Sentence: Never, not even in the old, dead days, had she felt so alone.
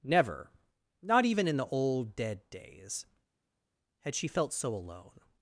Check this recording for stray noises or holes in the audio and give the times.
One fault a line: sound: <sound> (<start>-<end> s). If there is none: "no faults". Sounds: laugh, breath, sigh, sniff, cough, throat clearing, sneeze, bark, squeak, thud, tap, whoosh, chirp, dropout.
no faults